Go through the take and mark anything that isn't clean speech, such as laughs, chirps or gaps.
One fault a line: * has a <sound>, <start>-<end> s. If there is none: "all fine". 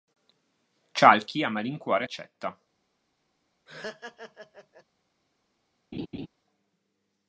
* has a laugh, 3.7-4.8 s
* has a laugh, 5.9-6.3 s